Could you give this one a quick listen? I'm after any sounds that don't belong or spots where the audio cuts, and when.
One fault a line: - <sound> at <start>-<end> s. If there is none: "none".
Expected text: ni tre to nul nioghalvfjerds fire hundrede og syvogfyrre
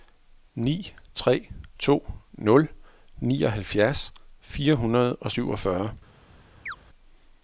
- chirp at 6.7-6.8 s